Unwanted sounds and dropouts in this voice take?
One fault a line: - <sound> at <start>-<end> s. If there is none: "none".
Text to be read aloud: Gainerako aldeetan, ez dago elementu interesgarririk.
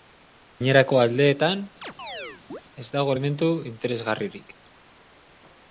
- chirp at 1.8-2.6 s